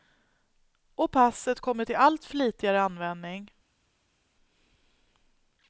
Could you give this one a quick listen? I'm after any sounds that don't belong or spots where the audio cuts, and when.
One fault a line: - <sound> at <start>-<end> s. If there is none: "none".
none